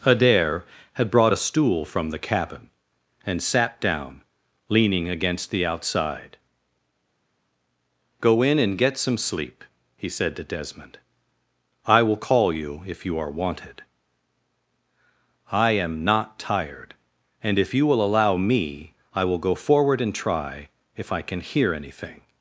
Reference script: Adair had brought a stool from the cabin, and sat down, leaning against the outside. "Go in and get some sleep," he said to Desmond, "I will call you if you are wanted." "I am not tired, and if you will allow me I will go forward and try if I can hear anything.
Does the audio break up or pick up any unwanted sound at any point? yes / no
no